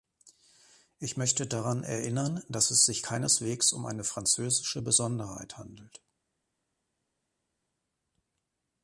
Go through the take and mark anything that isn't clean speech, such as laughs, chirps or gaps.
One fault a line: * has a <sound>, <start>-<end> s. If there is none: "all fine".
all fine